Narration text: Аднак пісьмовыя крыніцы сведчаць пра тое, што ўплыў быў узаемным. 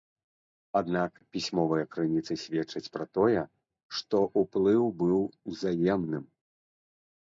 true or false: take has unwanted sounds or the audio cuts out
false